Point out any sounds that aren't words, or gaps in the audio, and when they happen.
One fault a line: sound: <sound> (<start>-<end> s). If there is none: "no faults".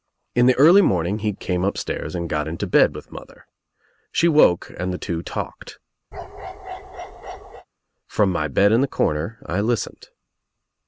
sound: bark (6.1-7.7 s)